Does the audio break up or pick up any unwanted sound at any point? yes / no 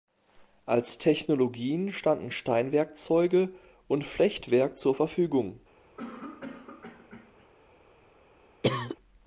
yes